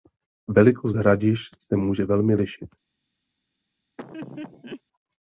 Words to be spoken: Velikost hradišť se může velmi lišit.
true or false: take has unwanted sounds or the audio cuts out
true